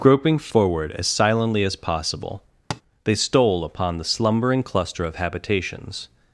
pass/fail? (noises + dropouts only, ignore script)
fail